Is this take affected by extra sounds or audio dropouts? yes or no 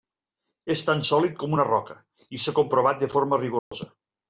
yes